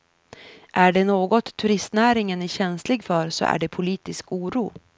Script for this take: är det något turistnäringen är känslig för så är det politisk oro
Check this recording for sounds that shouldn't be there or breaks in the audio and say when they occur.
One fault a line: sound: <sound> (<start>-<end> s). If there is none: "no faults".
no faults